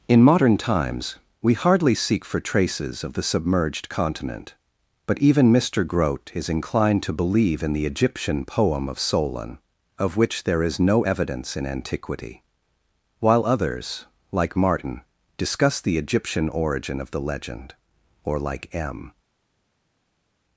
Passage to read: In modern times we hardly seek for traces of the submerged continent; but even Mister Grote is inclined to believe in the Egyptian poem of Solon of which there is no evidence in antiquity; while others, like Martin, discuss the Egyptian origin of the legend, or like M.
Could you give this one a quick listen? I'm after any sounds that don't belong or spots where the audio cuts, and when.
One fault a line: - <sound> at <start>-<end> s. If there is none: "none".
none